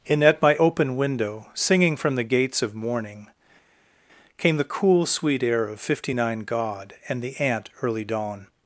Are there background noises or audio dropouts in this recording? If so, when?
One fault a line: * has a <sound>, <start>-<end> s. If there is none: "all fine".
all fine